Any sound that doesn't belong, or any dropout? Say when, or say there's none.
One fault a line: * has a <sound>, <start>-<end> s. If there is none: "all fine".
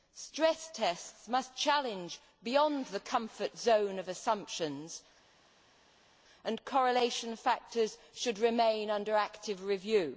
all fine